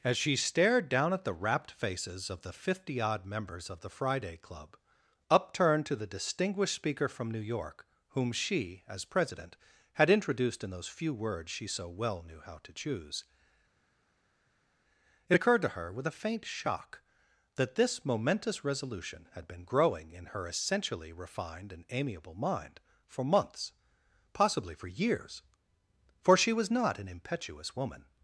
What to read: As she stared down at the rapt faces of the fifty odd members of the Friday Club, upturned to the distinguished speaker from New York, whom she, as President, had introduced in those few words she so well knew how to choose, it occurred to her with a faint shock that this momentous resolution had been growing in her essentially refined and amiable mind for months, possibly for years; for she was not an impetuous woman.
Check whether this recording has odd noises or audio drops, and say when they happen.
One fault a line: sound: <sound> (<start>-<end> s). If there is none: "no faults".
no faults